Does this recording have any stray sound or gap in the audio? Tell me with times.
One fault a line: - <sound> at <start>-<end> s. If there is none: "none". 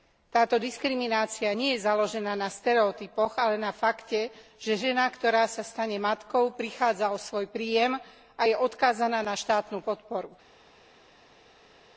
none